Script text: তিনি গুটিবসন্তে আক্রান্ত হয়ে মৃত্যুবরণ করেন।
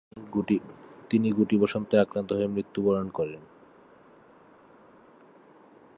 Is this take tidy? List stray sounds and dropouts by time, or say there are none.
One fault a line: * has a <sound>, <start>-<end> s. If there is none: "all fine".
all fine